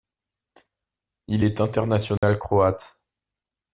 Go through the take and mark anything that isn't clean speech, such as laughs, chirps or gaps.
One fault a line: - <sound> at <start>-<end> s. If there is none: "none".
- dropout at 2.2-2.2 s